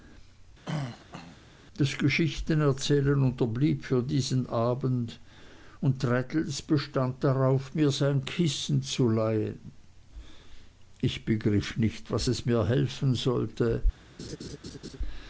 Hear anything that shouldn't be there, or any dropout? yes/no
yes